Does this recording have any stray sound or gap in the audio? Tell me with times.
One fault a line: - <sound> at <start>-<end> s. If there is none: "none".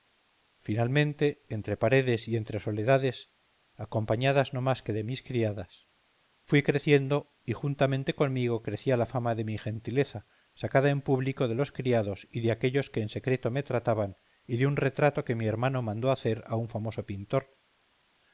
none